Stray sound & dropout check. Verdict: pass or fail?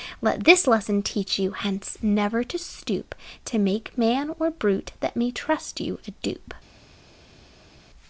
pass